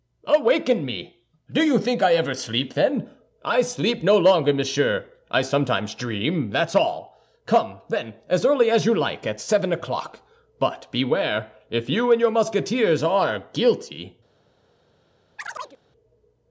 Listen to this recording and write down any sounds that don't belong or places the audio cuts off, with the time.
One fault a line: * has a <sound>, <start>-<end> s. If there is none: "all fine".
* has a chirp, 15.4-15.8 s